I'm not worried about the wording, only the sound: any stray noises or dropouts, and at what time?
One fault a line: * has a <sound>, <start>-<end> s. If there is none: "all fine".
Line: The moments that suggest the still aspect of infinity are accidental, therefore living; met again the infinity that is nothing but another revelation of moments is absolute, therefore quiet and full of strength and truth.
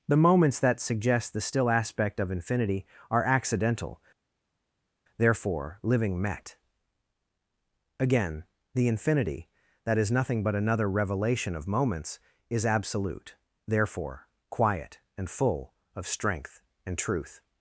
all fine